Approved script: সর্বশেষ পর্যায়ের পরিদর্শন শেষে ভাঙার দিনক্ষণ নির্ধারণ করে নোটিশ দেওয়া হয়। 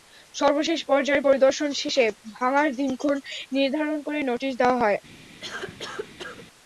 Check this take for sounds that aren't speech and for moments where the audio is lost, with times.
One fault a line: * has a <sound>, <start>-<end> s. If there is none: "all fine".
* has a cough, 5.4-6.5 s